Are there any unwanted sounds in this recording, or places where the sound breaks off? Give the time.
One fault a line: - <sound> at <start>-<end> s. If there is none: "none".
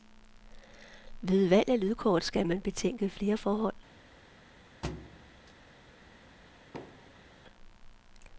- thud at 4.8-5.5 s
- thud at 6.7-7.3 s